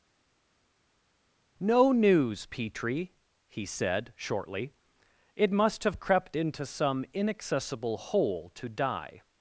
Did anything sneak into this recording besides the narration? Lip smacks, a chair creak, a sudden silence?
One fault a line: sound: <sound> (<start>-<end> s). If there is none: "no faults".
no faults